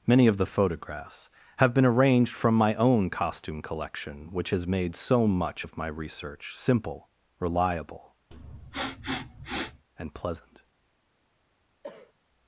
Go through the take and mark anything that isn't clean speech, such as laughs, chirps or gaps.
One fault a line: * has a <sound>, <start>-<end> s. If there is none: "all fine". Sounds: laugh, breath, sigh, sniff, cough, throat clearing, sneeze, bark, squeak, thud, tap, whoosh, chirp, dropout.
* has a sniff, 8.3-9.8 s
* has a cough, 11.8-12.1 s